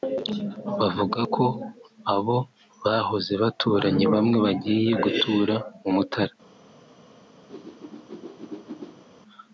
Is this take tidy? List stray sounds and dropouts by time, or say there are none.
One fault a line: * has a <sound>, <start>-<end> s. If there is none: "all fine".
* has a whoosh, 7.5-9.0 s